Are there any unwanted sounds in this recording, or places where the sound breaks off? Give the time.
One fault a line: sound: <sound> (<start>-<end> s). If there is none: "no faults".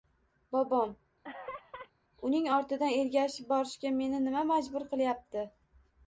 sound: laugh (1.2-1.9 s)